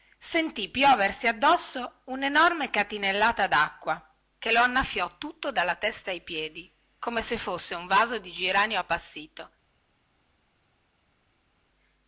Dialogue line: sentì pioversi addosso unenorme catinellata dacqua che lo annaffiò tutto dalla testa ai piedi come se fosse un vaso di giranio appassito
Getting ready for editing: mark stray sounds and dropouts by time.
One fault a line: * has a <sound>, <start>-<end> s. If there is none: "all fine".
all fine